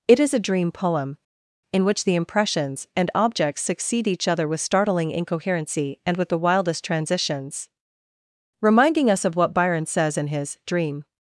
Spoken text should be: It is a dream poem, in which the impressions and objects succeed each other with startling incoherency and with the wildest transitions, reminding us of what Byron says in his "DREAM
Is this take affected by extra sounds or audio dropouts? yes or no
no